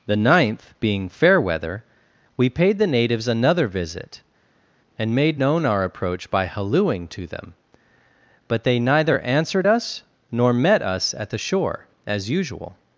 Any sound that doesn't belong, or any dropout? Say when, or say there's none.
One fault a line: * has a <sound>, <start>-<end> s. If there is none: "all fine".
all fine